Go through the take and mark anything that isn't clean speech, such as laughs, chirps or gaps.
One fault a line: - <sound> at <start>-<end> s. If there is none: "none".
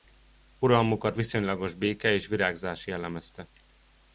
none